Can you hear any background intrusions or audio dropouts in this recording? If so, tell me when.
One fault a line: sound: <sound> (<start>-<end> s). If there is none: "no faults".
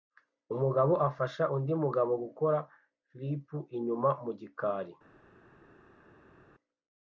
no faults